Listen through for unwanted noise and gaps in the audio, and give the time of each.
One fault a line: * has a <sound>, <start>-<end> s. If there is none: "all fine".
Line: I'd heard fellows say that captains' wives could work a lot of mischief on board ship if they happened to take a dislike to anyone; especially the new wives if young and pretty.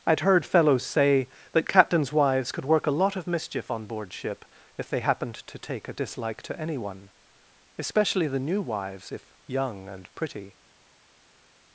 all fine